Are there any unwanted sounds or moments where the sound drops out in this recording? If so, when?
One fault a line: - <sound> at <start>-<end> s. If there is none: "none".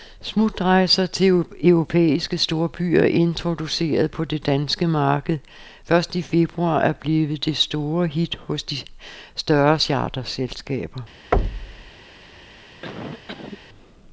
- thud at 11.3-11.9 s
- cough at 12.8-13.6 s